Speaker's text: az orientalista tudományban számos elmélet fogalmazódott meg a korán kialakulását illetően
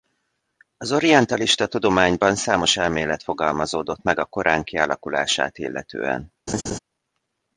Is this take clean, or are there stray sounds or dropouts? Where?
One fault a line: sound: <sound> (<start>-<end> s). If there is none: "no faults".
sound: laugh (6.5-6.8 s)